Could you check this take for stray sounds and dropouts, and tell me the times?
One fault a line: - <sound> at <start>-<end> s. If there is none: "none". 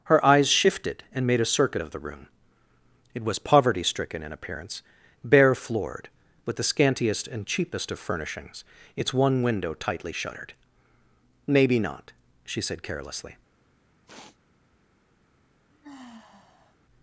- sniff at 14.1-14.4 s
- sigh at 15.7-16.8 s